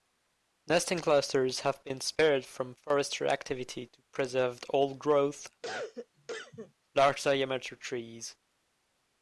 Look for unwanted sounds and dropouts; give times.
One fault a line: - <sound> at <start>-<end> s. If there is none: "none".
- cough at 5.6-6.7 s